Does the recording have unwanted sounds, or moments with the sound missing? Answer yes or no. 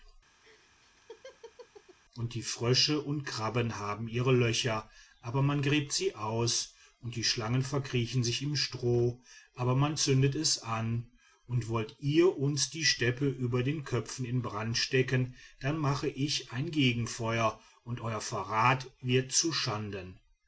yes